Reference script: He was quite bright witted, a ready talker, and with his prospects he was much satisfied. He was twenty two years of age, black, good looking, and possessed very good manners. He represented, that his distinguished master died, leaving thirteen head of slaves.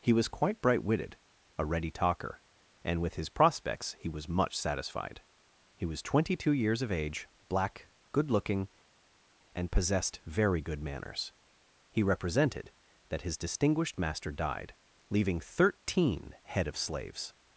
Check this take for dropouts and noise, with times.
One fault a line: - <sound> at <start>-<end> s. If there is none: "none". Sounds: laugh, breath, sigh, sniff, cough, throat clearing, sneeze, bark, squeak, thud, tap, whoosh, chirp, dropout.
none